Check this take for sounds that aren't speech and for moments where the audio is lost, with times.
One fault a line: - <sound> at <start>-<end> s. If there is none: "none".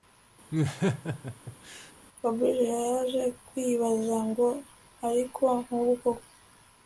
- laugh at 0.5-1.9 s